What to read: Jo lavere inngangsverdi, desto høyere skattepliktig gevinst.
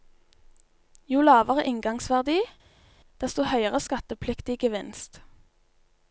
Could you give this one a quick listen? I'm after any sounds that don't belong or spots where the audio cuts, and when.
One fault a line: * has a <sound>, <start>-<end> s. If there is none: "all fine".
all fine